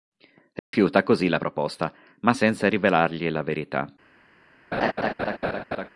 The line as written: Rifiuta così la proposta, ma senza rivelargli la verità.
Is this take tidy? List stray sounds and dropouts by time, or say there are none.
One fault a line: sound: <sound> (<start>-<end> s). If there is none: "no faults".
sound: dropout (0.6-0.7 s)
sound: laugh (4.7-5.9 s)